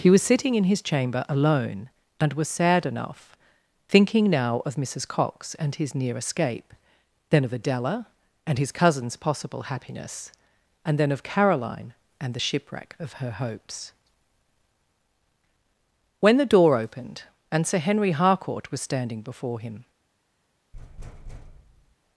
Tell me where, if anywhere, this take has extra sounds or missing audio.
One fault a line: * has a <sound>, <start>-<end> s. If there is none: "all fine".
* has a thud, 20.7-22.0 s